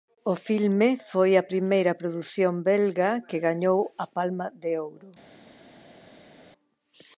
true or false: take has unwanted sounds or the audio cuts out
false